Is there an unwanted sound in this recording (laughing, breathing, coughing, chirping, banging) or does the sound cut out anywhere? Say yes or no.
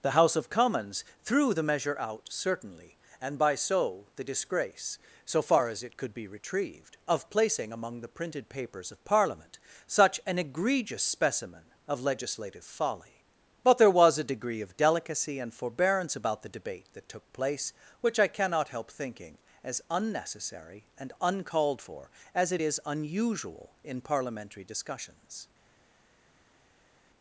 no